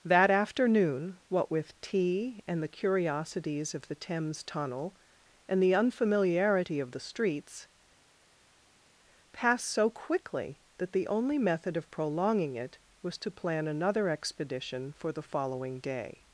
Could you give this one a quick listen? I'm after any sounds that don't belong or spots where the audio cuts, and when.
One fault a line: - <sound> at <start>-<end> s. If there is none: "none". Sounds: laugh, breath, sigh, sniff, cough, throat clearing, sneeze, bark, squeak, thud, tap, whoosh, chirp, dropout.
none